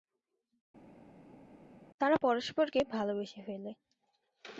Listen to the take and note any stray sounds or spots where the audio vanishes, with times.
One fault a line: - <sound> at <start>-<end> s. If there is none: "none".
none